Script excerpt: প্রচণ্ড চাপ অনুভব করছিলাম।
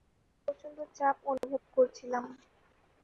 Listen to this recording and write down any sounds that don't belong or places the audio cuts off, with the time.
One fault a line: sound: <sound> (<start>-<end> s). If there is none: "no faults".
sound: dropout (1.4-1.4 s)